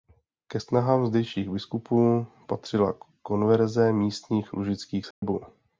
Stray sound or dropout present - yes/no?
yes